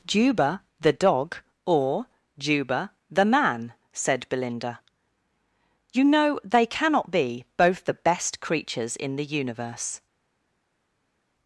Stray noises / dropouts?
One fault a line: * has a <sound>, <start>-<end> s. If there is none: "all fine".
all fine